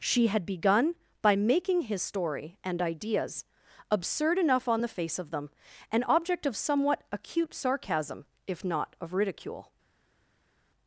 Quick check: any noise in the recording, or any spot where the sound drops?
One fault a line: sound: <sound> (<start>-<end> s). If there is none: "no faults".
no faults